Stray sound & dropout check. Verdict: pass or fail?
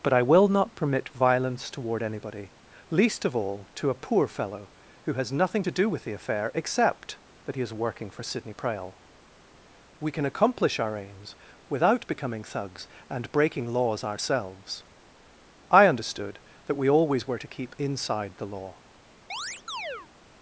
fail